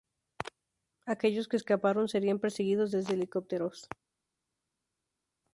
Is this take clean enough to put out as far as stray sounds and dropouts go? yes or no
yes